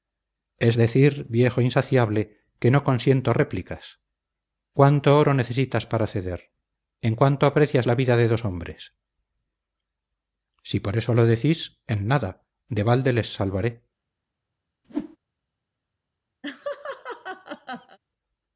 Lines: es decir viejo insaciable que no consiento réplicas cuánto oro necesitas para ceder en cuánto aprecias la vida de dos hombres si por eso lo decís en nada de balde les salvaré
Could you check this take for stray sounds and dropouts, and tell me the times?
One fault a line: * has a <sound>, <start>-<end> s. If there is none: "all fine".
* has a whoosh, 14.8-15.2 s
* has a laugh, 16.4-18.0 s